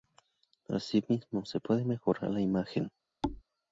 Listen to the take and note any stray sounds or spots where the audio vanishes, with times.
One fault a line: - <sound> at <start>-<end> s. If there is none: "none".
- thud at 3.2-3.4 s